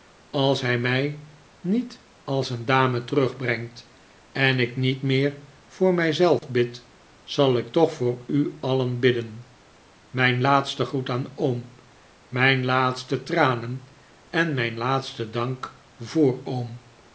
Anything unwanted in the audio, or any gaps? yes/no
yes